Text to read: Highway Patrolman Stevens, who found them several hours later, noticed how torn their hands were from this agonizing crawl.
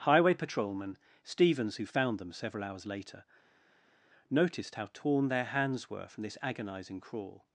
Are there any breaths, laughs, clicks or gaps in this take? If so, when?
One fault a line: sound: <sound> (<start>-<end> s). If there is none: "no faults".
no faults